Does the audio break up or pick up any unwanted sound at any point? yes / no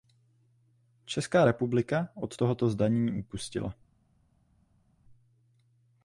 no